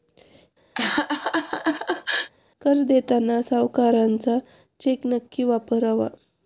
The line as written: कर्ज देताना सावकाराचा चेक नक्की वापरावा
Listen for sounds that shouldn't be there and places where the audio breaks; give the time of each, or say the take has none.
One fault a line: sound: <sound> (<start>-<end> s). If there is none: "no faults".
sound: laugh (0.7-2.3 s)